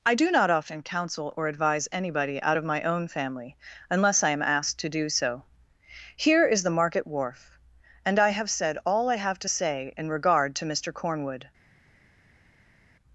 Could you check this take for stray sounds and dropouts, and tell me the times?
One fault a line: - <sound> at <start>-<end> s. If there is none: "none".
none